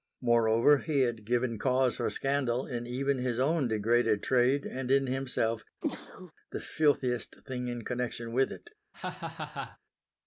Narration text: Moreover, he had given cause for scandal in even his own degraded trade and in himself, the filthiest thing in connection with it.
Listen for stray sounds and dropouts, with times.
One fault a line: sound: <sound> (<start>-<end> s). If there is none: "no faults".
sound: sneeze (5.8-6.3 s)
sound: laugh (8.9-9.8 s)